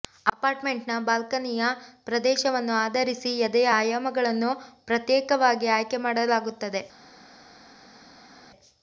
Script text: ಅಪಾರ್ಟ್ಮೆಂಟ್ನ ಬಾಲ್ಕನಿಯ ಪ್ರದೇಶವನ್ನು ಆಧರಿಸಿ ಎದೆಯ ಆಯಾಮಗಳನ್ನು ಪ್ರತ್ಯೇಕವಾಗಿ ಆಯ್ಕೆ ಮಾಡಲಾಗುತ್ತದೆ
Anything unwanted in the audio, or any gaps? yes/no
no